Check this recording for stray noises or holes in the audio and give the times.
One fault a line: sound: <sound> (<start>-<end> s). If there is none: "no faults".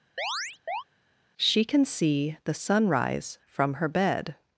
sound: chirp (0.2-0.8 s)